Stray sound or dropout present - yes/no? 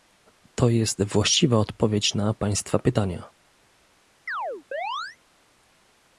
yes